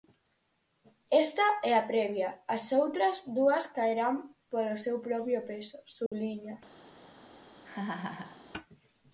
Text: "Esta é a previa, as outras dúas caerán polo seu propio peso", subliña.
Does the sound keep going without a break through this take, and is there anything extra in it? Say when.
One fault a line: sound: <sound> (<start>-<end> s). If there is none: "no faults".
sound: dropout (6.1-6.1 s)
sound: laugh (7.6-8.4 s)